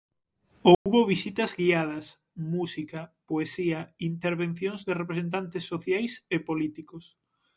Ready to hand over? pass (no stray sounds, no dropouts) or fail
fail